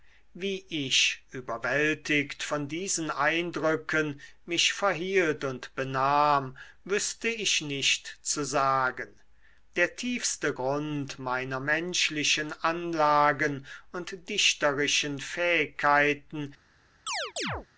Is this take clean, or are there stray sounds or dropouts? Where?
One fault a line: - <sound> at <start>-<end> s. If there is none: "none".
- chirp at 17.1-17.7 s